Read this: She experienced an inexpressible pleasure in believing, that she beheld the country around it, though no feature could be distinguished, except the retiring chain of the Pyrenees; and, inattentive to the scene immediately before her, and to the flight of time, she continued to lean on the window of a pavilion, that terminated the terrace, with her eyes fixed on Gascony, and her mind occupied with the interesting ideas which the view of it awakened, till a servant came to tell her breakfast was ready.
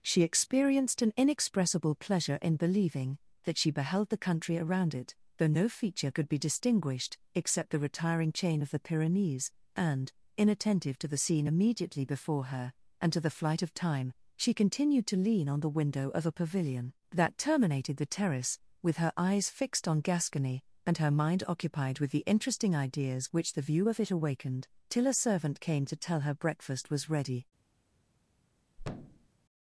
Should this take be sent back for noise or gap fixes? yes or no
yes